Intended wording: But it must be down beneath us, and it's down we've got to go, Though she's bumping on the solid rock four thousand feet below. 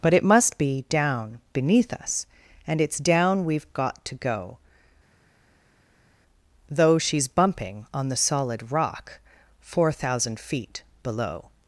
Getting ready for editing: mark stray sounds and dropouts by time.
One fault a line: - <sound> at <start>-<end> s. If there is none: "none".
none